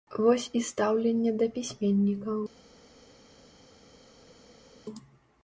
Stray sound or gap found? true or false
false